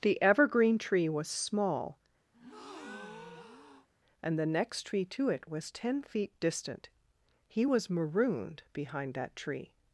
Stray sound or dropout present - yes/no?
yes